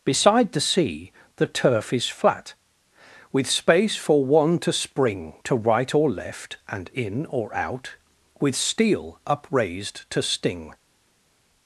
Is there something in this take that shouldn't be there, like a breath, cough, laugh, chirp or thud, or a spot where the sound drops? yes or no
no